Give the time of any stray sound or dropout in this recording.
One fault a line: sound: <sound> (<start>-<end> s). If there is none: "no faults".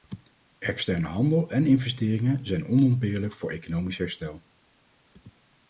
no faults